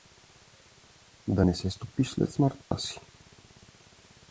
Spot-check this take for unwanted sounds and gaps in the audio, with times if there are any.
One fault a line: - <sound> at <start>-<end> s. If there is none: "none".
- dropout at 2.6-2.7 s